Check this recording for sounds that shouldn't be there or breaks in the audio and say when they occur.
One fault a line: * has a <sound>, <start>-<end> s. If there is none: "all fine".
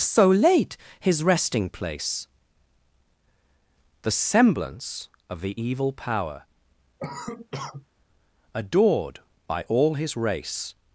* has a cough, 7.0-7.9 s